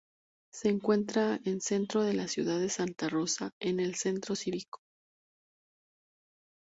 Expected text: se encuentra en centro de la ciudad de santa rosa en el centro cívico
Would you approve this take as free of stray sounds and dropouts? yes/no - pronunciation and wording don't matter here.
yes